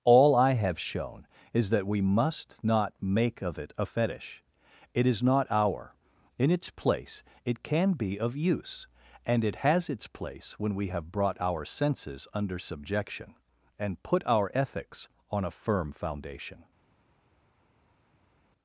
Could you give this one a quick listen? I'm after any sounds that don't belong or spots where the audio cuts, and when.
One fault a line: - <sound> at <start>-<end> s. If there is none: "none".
none